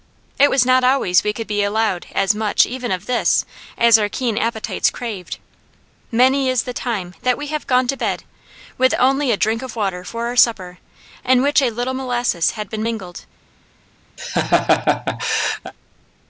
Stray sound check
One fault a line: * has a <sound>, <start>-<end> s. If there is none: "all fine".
* has a laugh, 14.2-15.7 s